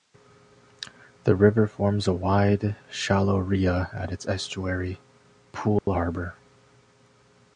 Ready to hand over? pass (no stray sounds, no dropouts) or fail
fail